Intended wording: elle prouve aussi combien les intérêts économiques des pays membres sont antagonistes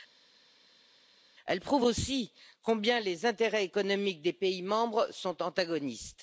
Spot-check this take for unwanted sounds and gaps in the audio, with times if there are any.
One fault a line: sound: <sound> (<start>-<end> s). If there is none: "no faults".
no faults